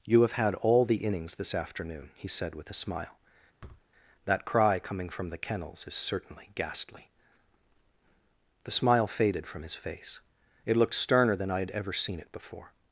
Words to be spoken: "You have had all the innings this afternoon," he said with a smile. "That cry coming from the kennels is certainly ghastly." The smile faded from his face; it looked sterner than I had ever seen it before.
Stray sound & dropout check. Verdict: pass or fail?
fail